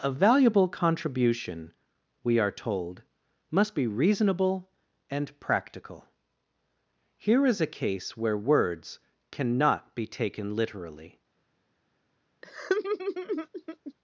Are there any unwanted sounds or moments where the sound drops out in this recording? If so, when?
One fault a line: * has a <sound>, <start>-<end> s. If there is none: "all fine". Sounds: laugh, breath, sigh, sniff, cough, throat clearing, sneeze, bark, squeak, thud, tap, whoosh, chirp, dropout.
* has a laugh, 12.4-13.9 s